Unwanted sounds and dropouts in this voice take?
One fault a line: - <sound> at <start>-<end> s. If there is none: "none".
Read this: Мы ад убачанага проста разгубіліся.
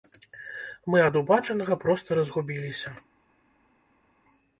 none